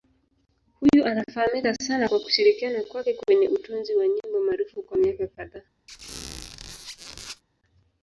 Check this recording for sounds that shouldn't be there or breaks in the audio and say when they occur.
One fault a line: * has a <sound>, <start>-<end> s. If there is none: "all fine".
* has a squeak, 5.9-7.4 s